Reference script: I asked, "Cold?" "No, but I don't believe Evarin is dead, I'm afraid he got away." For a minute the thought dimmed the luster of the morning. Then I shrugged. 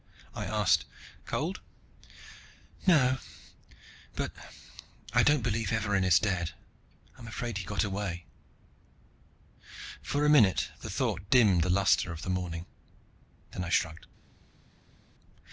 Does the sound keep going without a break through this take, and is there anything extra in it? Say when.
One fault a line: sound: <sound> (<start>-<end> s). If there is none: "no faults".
no faults